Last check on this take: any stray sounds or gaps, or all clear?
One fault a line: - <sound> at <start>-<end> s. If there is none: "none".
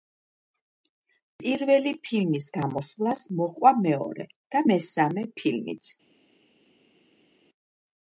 none